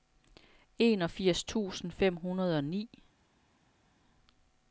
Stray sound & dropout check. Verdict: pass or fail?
pass